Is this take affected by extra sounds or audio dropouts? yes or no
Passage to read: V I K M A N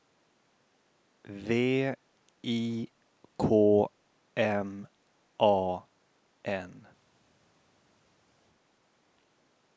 no